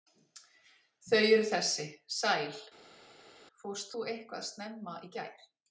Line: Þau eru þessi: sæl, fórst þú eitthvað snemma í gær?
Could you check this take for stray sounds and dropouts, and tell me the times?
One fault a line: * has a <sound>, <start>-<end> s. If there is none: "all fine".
all fine